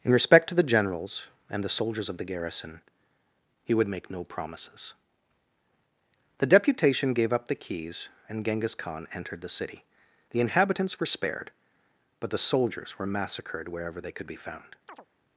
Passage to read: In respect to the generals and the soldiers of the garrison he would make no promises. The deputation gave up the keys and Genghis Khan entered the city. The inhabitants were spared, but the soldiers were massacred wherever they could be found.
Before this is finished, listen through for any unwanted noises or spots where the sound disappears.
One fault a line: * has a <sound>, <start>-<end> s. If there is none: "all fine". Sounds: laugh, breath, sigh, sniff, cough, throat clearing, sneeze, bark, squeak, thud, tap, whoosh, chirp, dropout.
* has a chirp, 14.9-15.1 s